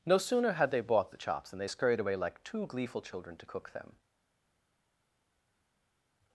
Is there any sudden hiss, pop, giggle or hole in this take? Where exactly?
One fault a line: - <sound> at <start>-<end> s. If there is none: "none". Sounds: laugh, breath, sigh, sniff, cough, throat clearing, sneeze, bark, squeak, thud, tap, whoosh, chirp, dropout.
none